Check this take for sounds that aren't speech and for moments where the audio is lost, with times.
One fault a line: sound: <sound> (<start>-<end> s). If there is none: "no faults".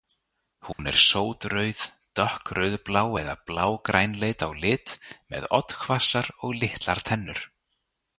sound: dropout (0.7-0.8 s)